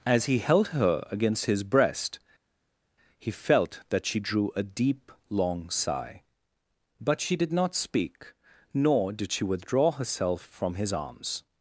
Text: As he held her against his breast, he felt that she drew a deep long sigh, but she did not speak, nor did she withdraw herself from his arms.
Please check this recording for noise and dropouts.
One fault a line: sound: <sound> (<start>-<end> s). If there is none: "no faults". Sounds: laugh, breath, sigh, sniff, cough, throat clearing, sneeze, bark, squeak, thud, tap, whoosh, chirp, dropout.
no faults